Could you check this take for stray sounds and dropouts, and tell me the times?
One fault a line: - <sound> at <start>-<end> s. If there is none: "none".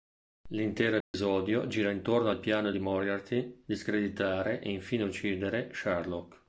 - dropout at 1.0-1.1 s